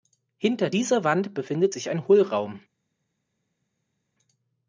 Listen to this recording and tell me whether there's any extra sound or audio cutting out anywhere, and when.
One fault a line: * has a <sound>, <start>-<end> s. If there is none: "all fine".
all fine